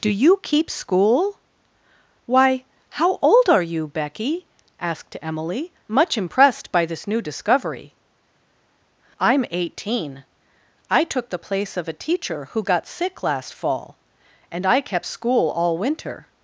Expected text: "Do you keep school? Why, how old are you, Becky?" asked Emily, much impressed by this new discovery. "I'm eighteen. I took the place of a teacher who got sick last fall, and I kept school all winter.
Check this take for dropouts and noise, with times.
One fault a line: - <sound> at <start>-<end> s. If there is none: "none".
none